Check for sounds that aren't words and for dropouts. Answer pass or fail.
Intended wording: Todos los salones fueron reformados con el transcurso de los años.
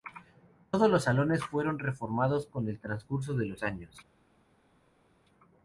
pass